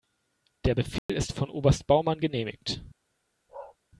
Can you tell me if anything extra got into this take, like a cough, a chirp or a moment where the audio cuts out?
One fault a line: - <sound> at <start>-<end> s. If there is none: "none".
- dropout at 1.0-1.1 s
- bark at 3.5-3.8 s